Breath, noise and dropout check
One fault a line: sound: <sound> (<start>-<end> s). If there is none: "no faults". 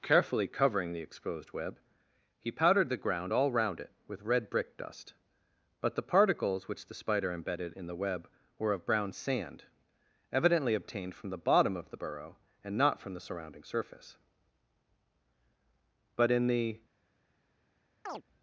sound: chirp (18.1-18.2 s)